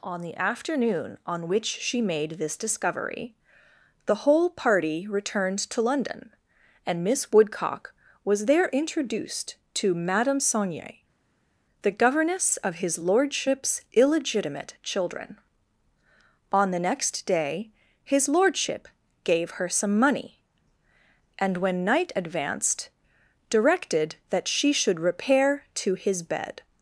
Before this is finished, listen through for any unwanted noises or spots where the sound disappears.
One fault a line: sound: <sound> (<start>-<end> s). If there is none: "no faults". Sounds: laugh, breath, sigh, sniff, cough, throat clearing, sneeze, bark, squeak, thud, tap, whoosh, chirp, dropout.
no faults